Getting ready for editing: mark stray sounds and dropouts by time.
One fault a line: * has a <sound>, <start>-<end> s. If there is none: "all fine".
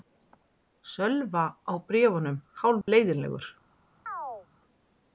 * has a dropout, 2.8-2.9 s
* has a chirp, 4.1-4.5 s